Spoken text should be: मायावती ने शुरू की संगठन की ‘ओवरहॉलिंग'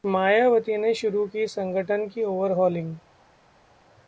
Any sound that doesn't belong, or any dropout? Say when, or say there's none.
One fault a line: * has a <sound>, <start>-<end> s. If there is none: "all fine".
all fine